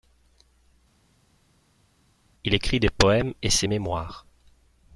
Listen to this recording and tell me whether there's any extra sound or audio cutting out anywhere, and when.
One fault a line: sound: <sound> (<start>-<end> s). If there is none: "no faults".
no faults